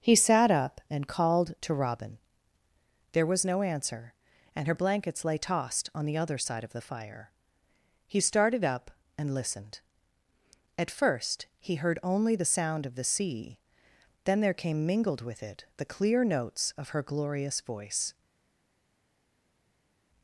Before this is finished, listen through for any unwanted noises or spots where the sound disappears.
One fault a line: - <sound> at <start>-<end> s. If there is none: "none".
none